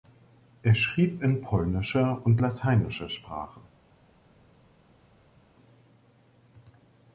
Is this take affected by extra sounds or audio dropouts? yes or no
no